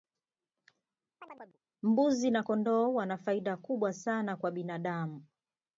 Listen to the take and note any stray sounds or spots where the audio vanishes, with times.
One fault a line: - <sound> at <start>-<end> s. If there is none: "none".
- chirp at 1.2-1.6 s